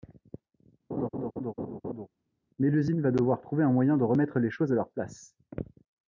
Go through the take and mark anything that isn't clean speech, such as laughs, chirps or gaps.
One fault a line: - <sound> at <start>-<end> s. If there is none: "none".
- laugh at 0.9-2.1 s